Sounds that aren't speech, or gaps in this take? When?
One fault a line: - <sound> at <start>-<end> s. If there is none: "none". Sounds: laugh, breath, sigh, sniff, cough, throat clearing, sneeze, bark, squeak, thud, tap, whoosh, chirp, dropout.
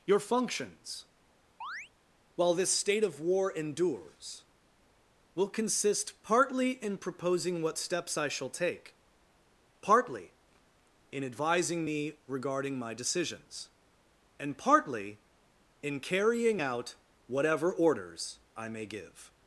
- chirp at 1.6-1.9 s